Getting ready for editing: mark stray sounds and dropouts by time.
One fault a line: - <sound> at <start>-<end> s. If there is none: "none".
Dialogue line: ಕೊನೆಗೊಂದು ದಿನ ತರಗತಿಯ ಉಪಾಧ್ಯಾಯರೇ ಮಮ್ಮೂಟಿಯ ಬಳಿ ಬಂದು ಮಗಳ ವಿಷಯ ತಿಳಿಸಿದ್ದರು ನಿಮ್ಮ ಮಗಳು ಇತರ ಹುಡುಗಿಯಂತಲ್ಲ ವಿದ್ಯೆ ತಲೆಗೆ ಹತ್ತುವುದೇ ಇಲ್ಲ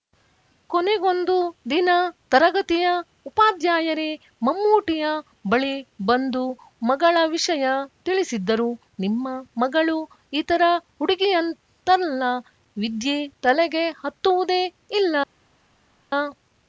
none